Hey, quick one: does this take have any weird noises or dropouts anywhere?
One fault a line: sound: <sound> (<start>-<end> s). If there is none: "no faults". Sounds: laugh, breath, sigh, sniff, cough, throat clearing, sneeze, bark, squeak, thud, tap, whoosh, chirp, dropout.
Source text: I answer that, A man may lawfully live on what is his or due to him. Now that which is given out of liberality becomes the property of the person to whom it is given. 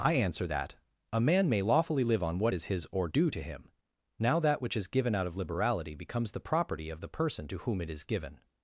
no faults